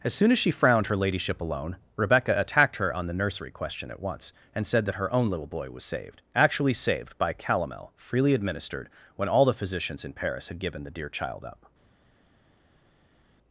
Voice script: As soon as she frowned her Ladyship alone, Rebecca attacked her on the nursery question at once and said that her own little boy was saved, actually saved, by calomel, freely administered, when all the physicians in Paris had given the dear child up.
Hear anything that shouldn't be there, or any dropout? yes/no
no